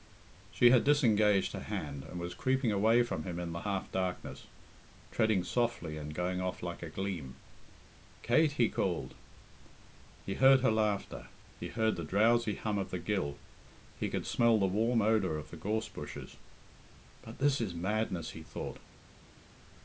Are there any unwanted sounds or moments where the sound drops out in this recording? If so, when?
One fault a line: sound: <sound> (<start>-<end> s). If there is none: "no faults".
no faults